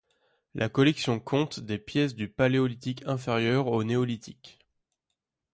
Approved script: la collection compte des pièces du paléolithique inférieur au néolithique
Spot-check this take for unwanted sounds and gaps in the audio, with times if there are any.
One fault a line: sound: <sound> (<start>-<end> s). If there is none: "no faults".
no faults